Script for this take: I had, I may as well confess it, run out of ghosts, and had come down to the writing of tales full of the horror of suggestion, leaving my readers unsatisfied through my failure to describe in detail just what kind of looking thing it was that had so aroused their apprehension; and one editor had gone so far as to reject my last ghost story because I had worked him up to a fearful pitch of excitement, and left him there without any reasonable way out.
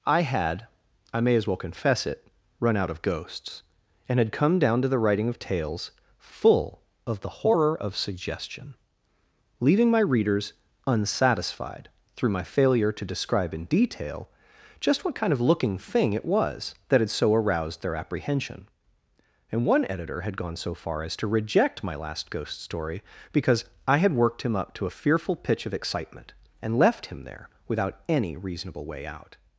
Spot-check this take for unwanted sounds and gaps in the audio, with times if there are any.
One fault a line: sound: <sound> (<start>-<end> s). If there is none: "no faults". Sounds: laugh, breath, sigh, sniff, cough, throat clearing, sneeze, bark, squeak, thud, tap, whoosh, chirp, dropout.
no faults